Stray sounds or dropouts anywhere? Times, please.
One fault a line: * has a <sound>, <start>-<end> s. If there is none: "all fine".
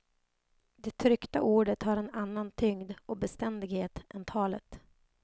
all fine